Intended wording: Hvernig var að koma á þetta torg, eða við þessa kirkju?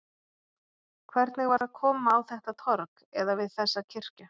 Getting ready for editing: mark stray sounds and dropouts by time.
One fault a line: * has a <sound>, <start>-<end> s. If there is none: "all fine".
* has a dropout, 1.6-1.6 s